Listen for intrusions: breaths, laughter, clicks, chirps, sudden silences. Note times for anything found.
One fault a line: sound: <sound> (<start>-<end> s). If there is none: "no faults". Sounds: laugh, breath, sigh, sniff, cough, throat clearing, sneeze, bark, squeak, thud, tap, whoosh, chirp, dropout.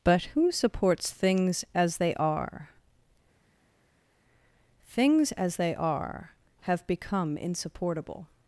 no faults